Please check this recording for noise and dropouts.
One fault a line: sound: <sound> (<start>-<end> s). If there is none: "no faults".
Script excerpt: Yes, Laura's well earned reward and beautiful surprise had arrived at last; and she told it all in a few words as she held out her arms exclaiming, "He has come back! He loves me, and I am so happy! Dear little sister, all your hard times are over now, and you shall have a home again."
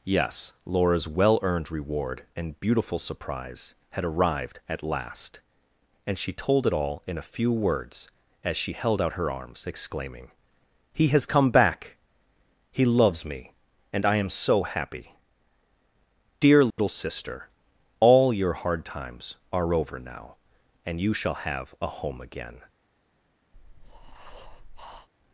sound: dropout (16.7-16.8 s)
sound: breath (23.5-25.1 s)